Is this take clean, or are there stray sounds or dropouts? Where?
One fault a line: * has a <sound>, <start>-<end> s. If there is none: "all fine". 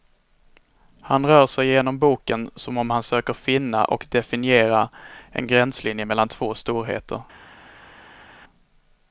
all fine